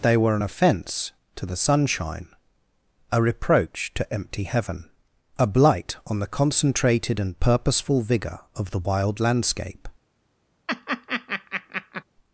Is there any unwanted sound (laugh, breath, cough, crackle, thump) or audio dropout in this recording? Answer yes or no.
yes